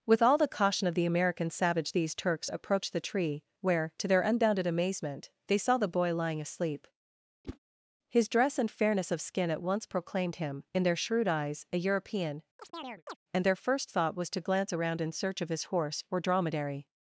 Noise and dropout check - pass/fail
fail